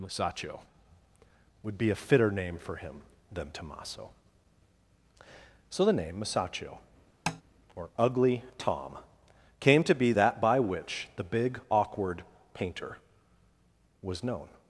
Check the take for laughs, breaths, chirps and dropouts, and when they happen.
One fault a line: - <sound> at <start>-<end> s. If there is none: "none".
- tap at 7.3-7.4 s